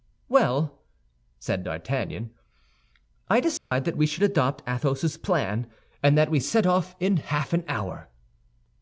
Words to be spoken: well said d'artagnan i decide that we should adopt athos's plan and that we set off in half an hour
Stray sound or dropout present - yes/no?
yes